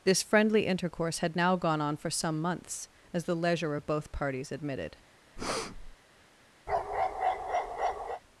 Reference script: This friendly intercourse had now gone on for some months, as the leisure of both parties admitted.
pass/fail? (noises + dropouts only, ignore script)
fail